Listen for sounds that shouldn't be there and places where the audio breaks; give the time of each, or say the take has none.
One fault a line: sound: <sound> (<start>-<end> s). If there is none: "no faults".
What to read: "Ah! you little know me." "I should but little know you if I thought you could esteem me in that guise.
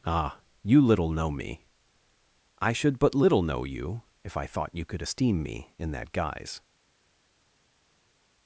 no faults